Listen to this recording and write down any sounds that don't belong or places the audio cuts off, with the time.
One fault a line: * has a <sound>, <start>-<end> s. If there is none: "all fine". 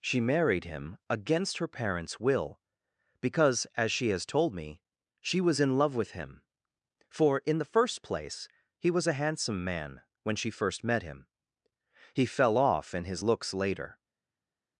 all fine